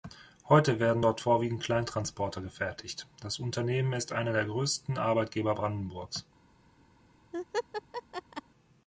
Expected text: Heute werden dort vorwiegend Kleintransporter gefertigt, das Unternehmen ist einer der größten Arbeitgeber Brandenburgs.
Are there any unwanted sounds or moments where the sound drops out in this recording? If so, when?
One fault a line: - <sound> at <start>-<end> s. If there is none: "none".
- laugh at 7.3-8.4 s